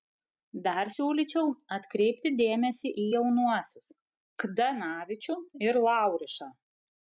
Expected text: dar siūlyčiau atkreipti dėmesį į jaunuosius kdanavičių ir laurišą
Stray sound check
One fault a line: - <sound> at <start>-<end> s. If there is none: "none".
none